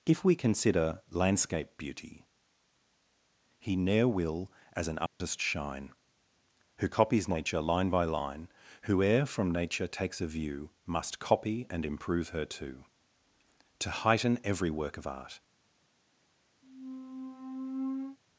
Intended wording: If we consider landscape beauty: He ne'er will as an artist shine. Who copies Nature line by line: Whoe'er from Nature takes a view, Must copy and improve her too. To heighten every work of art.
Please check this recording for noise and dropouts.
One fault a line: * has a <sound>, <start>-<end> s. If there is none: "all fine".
* has a dropout, 5.1-5.2 s
* has a squeak, 16.6-18.2 s